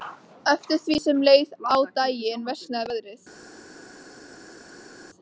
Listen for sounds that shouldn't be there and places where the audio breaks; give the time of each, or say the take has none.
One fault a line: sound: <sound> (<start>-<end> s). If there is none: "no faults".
no faults